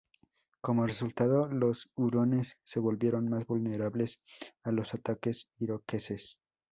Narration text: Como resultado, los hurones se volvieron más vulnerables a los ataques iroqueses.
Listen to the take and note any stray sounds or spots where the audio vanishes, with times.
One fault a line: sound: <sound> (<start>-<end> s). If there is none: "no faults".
no faults